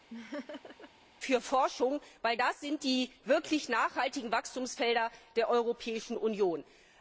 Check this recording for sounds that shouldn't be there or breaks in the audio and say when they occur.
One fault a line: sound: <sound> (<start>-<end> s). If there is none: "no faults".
sound: laugh (0.1-0.9 s)